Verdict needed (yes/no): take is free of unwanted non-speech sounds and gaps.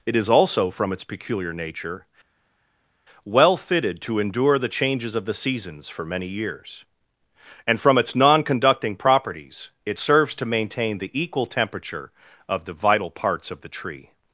yes